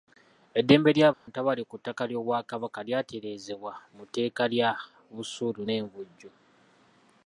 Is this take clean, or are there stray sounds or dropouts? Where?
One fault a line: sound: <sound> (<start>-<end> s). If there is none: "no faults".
sound: dropout (1.1-1.3 s)